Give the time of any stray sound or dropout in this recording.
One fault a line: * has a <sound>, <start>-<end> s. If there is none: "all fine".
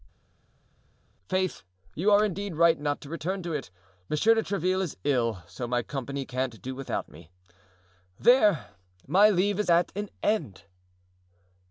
all fine